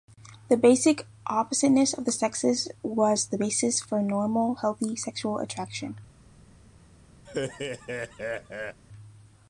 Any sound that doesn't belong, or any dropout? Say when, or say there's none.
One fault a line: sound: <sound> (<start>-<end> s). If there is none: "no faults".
sound: laugh (7.3-8.8 s)